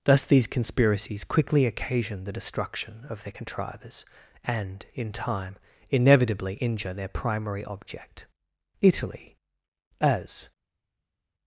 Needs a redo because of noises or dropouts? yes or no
no